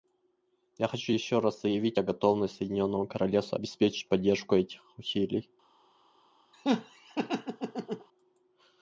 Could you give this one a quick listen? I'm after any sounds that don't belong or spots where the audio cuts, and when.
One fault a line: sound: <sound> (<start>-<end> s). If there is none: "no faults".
sound: laugh (6.5-8.1 s)